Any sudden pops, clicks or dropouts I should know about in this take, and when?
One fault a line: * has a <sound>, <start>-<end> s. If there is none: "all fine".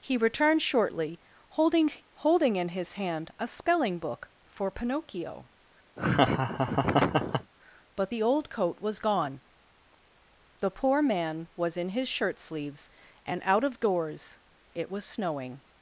* has a laugh, 6.0-7.5 s